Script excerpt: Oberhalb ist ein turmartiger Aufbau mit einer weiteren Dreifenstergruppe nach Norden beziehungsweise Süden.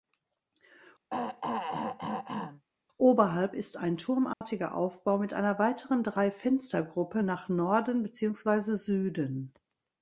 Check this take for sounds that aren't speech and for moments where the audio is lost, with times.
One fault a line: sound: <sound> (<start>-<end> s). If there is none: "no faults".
sound: throat clearing (1.1-2.6 s)
sound: dropout (4.3-4.4 s)